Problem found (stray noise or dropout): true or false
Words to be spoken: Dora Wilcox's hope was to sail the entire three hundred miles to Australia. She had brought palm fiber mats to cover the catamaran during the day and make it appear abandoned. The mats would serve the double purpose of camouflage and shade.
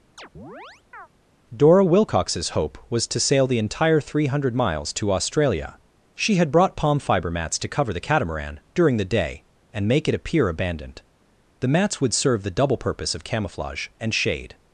true